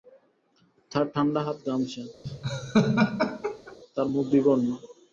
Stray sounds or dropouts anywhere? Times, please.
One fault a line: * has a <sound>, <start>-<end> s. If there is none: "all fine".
* has a laugh, 2.2-3.8 s